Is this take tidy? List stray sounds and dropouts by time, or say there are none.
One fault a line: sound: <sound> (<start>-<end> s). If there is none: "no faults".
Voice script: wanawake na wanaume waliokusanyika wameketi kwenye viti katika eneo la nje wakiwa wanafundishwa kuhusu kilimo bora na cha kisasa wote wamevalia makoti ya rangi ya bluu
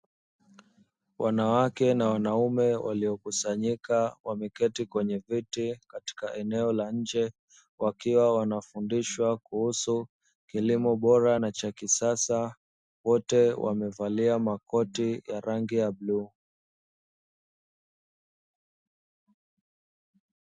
no faults